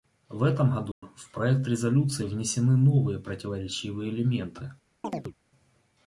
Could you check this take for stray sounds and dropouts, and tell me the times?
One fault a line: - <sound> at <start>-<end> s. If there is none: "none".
- dropout at 0.9-1.0 s
- chirp at 5.0-5.3 s